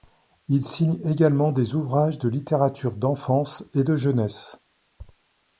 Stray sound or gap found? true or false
false